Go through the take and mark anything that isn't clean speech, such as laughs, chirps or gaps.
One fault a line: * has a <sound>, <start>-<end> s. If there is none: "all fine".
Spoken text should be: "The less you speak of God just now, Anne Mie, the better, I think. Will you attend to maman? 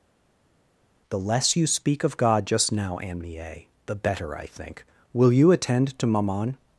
all fine